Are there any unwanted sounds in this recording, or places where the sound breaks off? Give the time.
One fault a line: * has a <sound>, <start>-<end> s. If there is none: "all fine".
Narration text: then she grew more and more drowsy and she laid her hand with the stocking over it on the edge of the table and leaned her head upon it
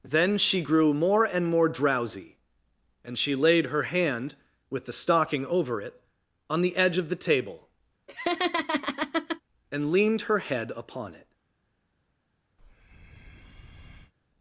* has a laugh, 8.1-9.4 s
* has a breath, 12.6-14.1 s